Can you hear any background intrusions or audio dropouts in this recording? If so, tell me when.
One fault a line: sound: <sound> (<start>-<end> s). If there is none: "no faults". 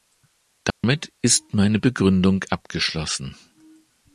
sound: dropout (0.7-0.8 s)